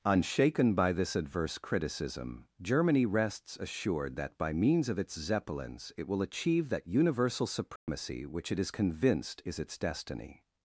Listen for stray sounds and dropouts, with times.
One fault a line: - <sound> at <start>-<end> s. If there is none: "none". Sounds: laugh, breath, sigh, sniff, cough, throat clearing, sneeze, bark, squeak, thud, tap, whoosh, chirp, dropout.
- dropout at 7.8-7.9 s